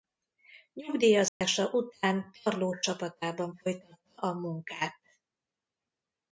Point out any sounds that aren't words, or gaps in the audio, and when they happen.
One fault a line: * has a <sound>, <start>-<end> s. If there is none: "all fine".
* has a dropout, 1.3-1.4 s